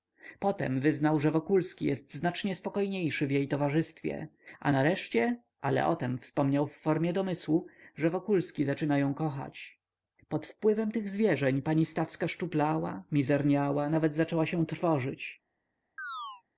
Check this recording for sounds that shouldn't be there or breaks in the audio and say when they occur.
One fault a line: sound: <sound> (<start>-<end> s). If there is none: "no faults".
sound: chirp (16.0-16.4 s)